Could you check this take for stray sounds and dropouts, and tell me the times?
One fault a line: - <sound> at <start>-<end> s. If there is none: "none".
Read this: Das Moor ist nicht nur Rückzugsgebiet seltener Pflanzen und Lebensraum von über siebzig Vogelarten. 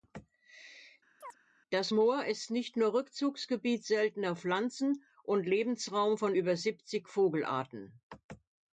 - chirp at 1.2-1.4 s